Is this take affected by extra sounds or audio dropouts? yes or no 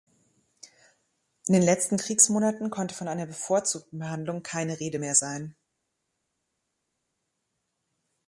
no